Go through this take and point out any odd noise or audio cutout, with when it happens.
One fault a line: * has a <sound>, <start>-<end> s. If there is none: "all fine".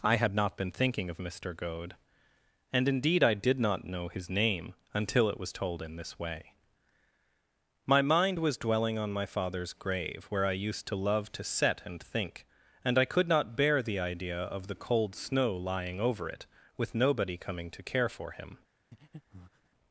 * has a breath, 18.9-19.7 s